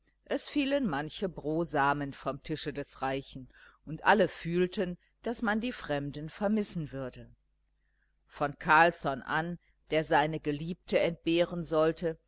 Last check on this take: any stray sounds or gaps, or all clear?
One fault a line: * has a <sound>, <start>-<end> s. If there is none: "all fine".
all fine